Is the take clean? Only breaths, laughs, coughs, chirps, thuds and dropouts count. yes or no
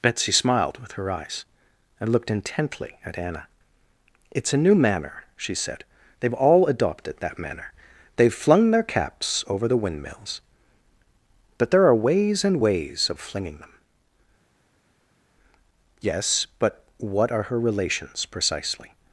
yes